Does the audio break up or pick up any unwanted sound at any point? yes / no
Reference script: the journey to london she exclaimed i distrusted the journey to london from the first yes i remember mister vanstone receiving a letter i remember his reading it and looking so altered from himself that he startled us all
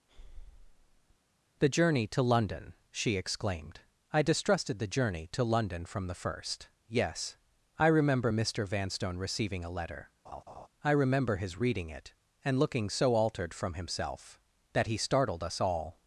yes